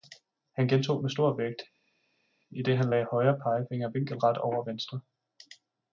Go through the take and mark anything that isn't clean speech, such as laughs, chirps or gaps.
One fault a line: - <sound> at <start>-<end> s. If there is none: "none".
none